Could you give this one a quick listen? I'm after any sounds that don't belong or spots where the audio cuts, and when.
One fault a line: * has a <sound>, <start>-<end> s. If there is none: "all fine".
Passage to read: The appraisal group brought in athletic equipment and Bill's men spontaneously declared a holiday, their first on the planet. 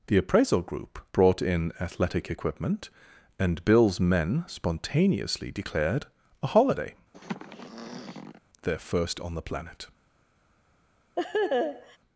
* has a throat clearing, 7.1-8.4 s
* has a laugh, 11.2-12.0 s